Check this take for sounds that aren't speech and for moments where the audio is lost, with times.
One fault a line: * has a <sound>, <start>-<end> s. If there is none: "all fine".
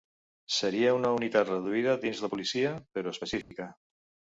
* has a dropout, 3.4-3.5 s